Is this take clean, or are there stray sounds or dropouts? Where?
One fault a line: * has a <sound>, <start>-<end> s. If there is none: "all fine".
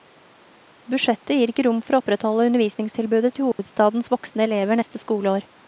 * has a dropout, 3.5-3.6 s